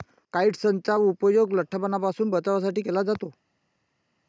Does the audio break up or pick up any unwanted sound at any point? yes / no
no